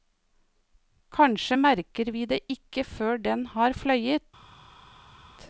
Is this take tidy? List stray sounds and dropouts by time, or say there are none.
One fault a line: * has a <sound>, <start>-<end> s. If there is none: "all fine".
all fine